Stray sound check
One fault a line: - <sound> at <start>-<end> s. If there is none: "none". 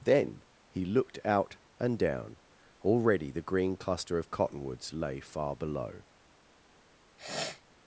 - sniff at 7.2-7.6 s